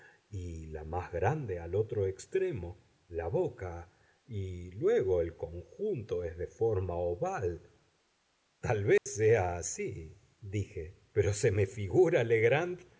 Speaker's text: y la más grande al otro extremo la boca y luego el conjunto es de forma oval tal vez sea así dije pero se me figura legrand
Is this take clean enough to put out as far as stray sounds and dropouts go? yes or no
no